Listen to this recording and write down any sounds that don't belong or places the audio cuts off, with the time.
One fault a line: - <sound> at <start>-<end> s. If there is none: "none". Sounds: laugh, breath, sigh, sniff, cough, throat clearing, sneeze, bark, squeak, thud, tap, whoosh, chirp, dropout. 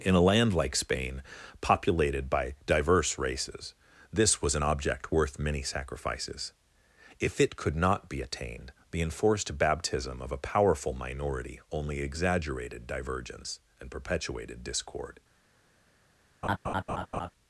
- laugh at 16.4-17.3 s